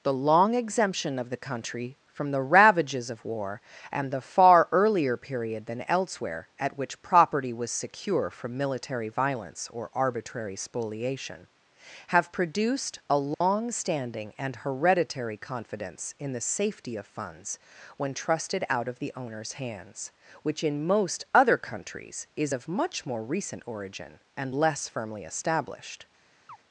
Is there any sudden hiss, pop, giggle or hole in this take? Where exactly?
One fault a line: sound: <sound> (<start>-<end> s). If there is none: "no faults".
sound: dropout (13.3-13.4 s)
sound: chirp (26.5-26.6 s)